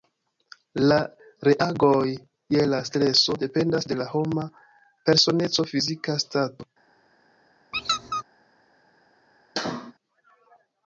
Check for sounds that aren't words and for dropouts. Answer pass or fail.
fail